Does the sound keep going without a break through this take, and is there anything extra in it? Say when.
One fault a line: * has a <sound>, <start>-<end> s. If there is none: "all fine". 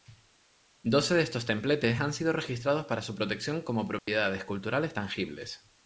* has a dropout, 4.0-4.1 s